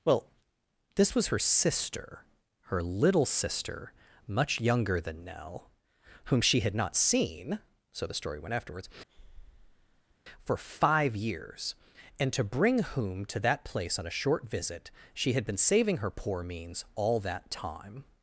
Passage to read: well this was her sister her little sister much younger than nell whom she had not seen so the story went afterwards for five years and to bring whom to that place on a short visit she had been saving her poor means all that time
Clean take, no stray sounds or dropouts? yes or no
no